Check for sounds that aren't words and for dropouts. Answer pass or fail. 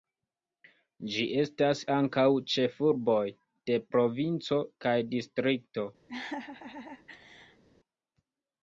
fail